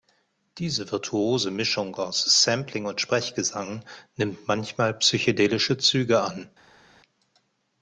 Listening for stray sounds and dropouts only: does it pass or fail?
pass